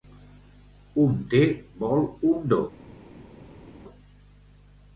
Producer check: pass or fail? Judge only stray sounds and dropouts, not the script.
pass